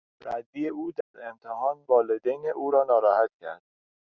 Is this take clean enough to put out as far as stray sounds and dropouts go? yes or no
no